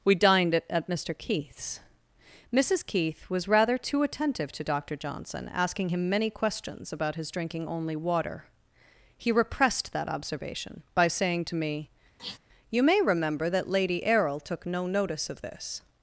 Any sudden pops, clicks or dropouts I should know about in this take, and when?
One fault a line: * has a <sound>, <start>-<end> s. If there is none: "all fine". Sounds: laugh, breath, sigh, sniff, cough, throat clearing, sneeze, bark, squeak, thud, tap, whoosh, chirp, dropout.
* has a sniff, 12.2-12.4 s